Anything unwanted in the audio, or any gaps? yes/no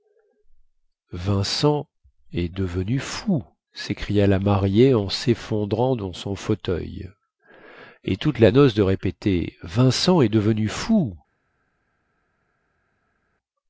no